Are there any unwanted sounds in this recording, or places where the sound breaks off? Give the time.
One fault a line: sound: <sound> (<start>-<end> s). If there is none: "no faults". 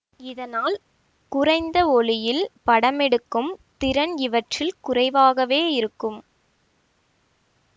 no faults